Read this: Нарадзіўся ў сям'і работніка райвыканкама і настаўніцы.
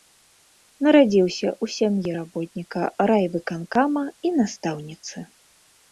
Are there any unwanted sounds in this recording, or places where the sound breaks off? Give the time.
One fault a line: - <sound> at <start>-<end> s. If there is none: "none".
none